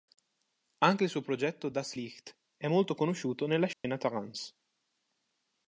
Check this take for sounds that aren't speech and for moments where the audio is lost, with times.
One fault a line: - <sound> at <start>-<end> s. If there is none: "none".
- dropout at 3.7-3.8 s